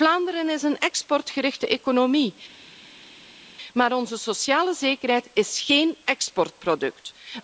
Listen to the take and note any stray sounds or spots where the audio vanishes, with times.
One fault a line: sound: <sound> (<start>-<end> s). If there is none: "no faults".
no faults